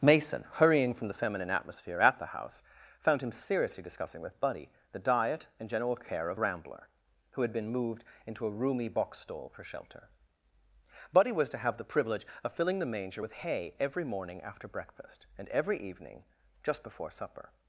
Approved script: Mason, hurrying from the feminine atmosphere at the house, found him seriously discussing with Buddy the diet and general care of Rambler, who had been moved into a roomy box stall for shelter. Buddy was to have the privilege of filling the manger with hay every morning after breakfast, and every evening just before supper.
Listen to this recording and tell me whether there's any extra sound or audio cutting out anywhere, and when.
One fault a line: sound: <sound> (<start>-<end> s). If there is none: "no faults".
no faults